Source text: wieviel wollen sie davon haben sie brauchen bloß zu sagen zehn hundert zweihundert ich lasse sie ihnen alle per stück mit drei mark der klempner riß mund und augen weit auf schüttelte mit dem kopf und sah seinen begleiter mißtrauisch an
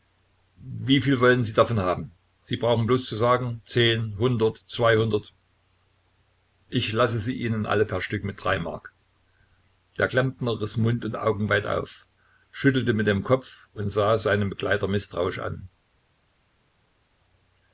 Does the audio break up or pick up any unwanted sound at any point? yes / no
no